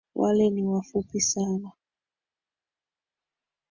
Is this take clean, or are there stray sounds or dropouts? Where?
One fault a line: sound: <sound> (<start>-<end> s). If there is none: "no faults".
no faults